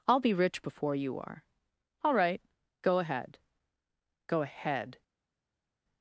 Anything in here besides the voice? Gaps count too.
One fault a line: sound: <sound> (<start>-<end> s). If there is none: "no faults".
no faults